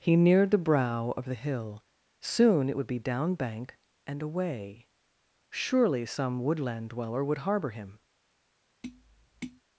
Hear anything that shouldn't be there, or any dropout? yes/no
yes